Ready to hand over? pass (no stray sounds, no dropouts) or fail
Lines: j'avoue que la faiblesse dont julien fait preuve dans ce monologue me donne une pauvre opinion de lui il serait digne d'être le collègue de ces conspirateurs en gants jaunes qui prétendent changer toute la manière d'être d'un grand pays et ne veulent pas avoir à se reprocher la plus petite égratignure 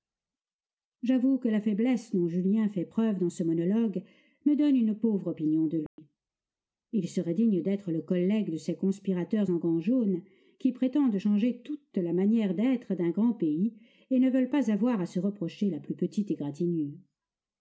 fail